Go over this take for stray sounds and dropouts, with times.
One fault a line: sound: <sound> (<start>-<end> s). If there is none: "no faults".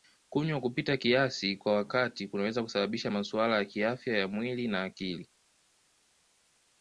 no faults